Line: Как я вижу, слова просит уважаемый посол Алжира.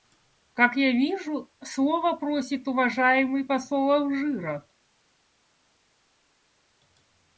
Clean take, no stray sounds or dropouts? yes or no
yes